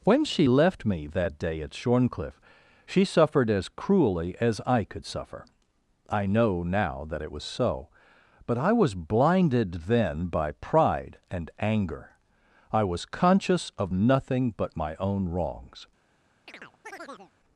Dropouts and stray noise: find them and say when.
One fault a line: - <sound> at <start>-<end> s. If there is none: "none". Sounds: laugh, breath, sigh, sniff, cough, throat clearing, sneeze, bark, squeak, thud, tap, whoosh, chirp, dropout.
- chirp at 16.5-17.3 s